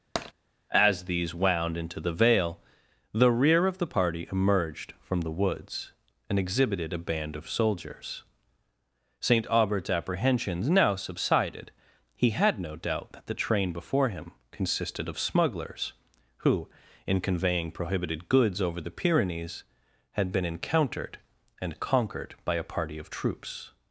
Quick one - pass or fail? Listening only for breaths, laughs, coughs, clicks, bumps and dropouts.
fail